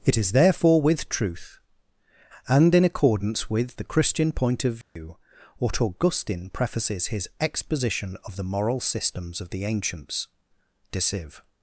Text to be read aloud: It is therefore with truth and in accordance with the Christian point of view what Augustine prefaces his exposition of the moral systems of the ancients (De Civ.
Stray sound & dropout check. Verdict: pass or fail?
fail